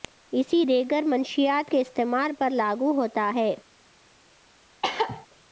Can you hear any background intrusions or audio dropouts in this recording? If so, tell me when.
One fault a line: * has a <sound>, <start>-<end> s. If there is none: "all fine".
* has a cough, 4.8-5.3 s